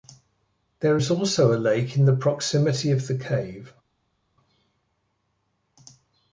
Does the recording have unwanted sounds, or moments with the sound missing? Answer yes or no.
no